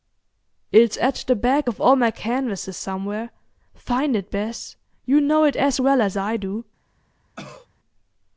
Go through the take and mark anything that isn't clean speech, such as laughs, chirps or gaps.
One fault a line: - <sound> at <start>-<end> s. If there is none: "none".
- cough at 7.4-7.7 s